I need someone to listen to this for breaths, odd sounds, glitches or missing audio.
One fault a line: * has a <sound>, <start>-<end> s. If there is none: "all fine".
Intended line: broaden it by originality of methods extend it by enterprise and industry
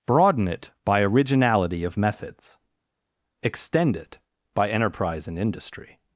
all fine